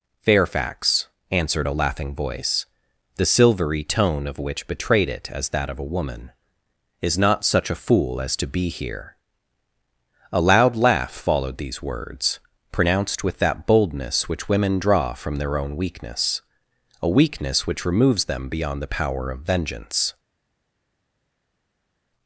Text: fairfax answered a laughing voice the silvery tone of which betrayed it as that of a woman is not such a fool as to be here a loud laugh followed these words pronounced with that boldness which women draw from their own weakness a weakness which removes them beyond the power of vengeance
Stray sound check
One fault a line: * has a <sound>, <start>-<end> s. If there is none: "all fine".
all fine